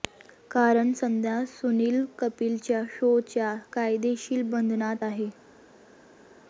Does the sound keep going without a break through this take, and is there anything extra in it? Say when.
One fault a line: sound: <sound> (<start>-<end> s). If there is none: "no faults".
no faults